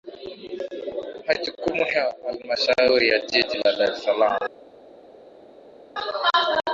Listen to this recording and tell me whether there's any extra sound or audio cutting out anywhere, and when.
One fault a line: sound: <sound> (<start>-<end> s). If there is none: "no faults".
no faults